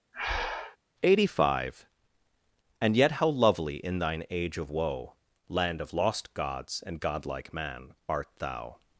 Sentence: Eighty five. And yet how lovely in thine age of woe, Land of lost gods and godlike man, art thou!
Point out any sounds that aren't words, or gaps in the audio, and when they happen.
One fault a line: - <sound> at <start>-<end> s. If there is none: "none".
- breath at 0.1-0.8 s